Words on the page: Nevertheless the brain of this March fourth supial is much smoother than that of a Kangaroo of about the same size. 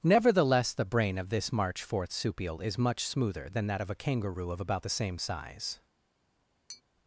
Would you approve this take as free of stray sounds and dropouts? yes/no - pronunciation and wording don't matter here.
no